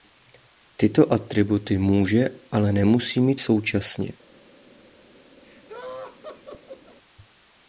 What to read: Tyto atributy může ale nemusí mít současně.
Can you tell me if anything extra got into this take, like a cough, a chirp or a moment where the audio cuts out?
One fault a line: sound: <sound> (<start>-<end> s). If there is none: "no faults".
sound: laugh (5.4-7.0 s)